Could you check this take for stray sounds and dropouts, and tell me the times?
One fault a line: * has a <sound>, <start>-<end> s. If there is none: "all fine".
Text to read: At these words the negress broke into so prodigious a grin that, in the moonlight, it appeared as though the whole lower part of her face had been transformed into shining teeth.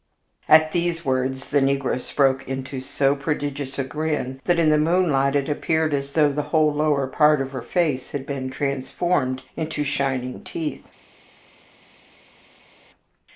all fine